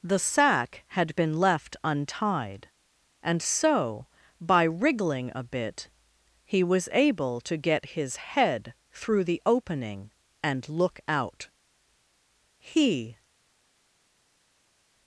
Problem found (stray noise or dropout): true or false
false